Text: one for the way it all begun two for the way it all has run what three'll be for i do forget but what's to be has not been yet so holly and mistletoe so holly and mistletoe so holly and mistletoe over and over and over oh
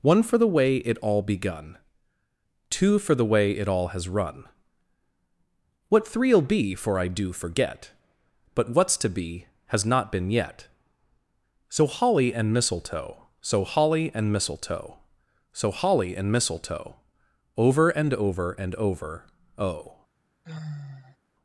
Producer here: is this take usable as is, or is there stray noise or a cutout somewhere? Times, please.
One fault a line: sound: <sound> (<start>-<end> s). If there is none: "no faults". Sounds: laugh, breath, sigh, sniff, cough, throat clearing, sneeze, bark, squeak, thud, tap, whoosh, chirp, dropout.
sound: sigh (20.4-21.2 s)